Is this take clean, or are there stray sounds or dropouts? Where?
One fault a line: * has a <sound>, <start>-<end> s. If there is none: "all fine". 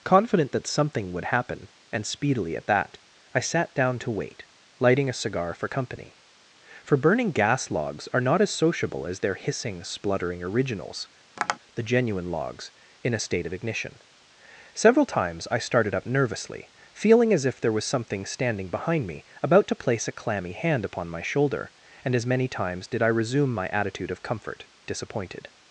* has a tap, 11.4-11.6 s